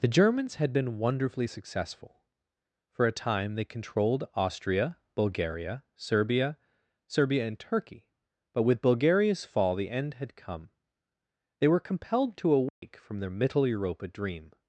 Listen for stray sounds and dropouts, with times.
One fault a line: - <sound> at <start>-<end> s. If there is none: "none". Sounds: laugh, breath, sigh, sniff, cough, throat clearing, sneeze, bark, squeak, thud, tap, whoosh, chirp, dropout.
- dropout at 12.7-12.8 s